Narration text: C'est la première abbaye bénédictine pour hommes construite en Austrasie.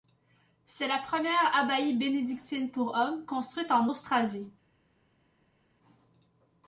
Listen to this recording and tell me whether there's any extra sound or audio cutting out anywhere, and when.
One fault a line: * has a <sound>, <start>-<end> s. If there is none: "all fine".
all fine